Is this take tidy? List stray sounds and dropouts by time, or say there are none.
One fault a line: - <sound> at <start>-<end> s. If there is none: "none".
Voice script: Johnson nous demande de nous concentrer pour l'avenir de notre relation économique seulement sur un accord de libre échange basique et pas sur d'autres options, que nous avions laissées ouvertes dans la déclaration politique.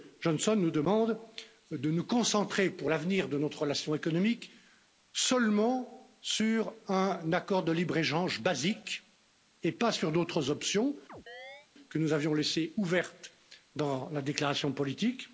- chirp at 11.1-11.7 s